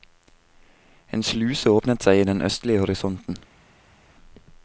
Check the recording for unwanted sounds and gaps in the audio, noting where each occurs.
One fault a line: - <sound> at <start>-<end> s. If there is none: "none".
none